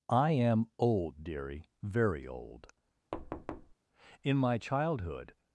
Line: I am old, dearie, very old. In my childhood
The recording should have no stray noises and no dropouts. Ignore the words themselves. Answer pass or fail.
fail